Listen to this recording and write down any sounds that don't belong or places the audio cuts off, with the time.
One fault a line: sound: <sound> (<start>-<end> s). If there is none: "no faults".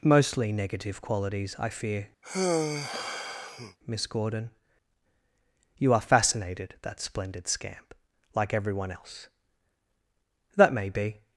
sound: sigh (2.2-3.8 s)